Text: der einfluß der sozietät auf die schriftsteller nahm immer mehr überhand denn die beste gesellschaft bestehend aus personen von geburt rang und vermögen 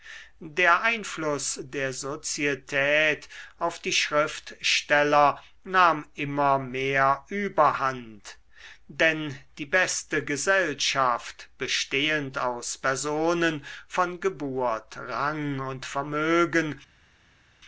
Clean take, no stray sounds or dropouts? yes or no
yes